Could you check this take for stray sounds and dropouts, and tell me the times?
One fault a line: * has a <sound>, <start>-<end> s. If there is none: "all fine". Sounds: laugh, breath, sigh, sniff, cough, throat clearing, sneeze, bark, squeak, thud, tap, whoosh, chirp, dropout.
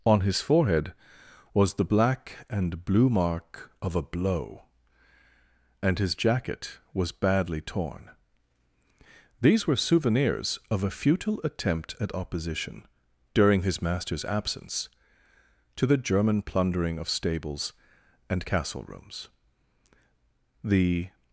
all fine